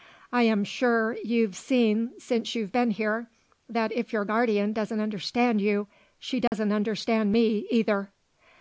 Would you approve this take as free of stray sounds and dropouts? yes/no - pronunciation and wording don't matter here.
no